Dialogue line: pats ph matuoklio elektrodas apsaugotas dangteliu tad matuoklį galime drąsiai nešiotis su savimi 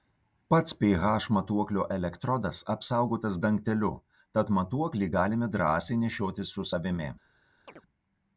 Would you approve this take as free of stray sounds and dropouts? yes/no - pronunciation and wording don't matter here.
no